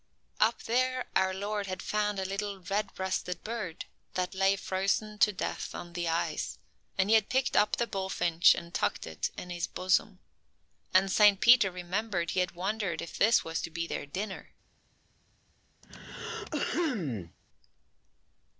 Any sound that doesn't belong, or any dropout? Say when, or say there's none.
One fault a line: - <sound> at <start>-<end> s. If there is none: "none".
- throat clearing at 15.8-17.4 s